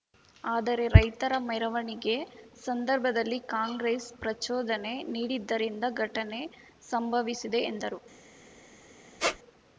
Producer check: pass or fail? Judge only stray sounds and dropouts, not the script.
fail